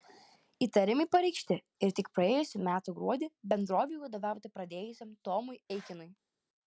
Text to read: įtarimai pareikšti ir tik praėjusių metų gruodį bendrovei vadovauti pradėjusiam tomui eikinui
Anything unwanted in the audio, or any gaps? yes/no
no